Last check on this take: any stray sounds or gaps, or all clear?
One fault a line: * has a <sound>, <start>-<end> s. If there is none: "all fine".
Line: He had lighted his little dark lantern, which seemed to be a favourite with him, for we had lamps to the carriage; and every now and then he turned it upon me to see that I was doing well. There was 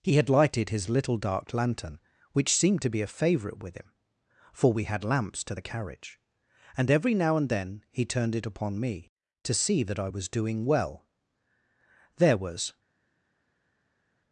all fine